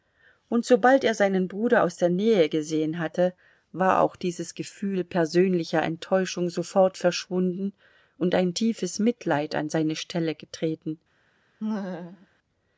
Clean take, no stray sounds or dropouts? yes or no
no